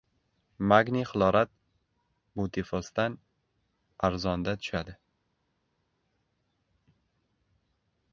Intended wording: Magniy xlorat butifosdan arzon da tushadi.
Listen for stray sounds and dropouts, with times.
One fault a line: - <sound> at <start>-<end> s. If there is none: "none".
none